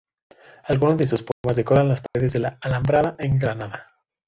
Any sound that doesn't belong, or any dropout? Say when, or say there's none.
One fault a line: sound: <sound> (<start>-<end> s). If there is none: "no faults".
sound: dropout (1.3-1.4 s)
sound: dropout (2.1-2.1 s)